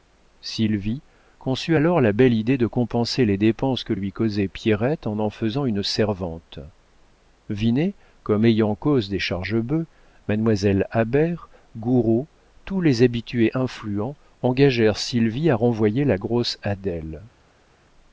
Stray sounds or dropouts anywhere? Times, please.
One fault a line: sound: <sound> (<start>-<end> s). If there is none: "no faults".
no faults